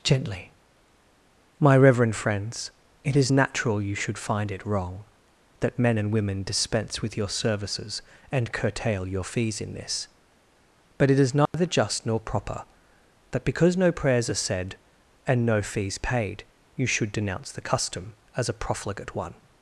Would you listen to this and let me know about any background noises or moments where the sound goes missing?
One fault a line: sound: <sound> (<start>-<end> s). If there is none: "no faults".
sound: dropout (11.5-11.5 s)